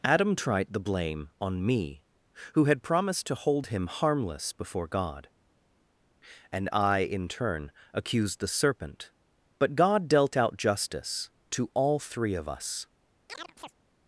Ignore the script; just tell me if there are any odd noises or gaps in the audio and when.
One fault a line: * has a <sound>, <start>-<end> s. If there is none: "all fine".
* has a chirp, 13.3-13.7 s